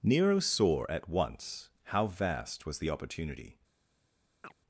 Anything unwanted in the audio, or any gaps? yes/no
yes